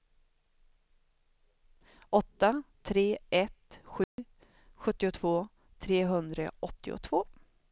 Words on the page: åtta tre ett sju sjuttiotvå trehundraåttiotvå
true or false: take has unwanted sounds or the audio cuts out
true